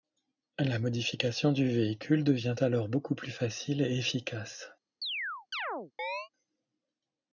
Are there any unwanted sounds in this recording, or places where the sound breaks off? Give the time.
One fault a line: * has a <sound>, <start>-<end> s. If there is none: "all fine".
* has a chirp, 5.0-6.3 s